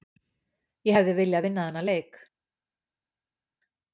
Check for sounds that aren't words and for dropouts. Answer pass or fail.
pass